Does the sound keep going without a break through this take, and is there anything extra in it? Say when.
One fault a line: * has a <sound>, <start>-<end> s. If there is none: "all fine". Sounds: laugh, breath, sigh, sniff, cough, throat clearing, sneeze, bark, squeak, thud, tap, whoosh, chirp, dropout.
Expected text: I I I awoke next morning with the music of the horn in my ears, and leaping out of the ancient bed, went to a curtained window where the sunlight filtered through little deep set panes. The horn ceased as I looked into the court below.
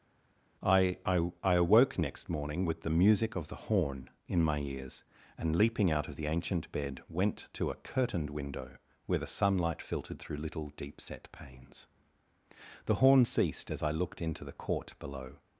all fine